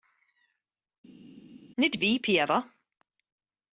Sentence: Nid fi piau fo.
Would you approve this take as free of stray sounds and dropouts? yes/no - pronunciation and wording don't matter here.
yes